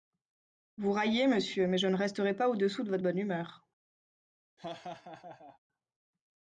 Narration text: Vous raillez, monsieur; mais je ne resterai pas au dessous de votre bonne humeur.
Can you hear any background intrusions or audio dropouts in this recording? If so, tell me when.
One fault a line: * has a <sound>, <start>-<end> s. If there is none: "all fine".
* has a laugh, 4.6-5.6 s